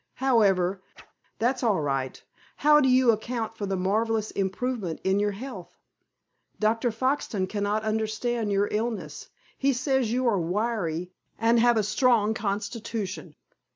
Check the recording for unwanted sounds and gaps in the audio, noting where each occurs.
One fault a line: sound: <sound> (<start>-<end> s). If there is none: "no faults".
sound: whoosh (0.9-1.1 s)